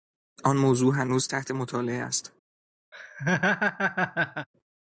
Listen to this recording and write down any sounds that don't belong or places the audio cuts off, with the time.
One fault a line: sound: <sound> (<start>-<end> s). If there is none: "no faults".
sound: laugh (2.9-4.5 s)